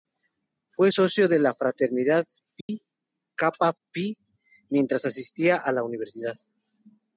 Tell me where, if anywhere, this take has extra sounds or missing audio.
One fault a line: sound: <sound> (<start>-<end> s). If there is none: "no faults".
sound: dropout (2.6-2.7 s)